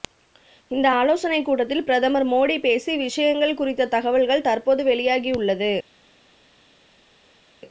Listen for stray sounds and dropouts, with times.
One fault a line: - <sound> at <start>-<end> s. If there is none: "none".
none